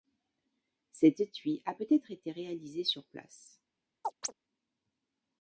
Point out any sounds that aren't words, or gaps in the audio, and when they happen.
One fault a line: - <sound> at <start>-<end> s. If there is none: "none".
- chirp at 4.0-4.3 s